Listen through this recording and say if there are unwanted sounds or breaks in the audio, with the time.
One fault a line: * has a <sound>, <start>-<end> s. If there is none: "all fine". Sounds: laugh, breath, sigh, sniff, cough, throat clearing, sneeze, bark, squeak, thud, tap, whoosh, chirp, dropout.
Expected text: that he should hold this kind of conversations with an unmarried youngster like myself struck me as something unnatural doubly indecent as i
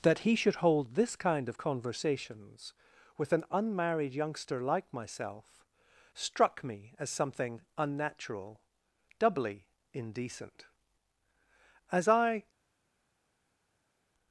all fine